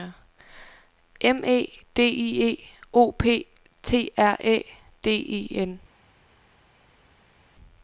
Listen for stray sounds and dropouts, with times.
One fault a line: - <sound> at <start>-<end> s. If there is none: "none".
none